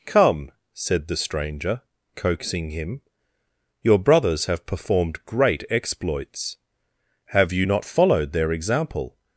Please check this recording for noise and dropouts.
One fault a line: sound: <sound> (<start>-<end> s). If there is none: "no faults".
no faults